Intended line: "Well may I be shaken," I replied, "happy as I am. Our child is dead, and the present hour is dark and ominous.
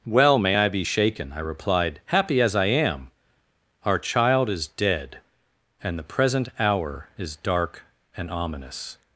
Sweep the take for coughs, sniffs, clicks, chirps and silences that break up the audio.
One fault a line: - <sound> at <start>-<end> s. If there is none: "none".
none